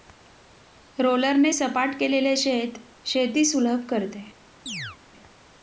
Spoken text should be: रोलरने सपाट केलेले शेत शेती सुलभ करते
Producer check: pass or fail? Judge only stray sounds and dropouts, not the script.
fail